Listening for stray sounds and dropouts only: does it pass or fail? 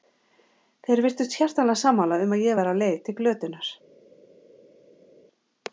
pass